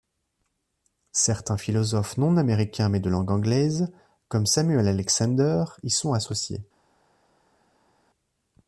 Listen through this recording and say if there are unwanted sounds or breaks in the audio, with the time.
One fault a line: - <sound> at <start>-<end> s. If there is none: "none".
none